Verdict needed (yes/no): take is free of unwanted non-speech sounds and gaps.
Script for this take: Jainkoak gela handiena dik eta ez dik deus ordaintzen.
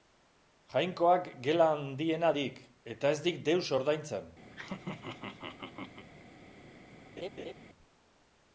no